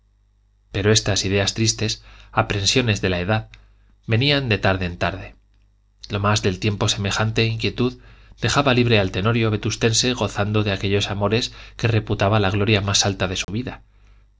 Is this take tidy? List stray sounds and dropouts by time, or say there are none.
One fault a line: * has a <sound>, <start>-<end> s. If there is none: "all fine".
* has a dropout, 13.4-13.5 s